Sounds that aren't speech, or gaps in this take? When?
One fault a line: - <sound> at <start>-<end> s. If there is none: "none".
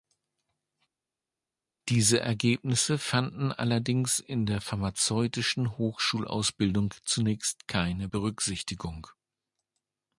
none